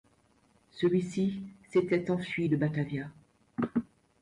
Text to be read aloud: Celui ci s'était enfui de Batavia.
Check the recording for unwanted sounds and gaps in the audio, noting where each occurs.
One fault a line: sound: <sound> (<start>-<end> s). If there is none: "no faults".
no faults